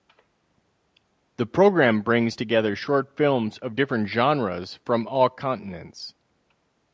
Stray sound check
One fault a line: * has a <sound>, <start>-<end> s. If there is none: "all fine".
all fine